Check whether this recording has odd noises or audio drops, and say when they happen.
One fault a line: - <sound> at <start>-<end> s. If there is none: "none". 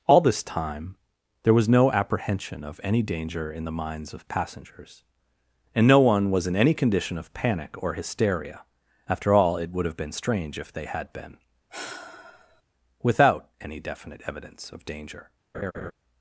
- sigh at 11.7-12.6 s
- laugh at 15.5-15.9 s